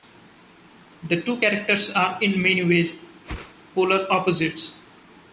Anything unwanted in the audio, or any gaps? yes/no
yes